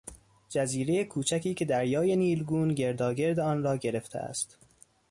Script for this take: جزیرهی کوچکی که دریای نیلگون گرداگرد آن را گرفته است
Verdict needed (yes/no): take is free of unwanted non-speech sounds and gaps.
yes